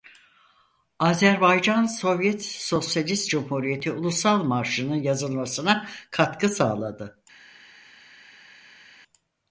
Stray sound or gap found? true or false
false